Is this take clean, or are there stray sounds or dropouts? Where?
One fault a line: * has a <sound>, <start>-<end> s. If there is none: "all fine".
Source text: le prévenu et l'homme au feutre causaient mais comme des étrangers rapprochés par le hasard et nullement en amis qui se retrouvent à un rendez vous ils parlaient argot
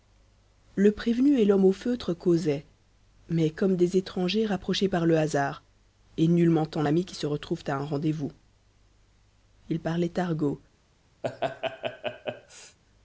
* has a laugh, 11.2-12.8 s